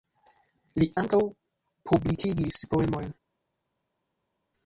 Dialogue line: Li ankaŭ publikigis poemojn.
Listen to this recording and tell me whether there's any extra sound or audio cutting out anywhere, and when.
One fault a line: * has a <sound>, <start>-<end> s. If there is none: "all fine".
all fine